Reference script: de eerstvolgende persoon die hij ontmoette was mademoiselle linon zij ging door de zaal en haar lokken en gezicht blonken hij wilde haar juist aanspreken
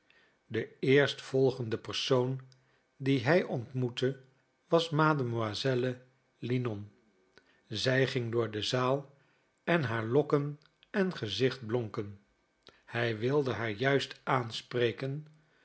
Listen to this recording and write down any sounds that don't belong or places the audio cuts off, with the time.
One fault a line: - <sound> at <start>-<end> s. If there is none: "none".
none